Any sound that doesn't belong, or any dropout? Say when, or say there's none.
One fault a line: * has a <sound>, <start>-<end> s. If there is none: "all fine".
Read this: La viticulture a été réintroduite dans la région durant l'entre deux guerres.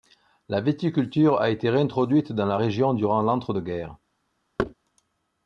* has a thud, 4.6-4.7 s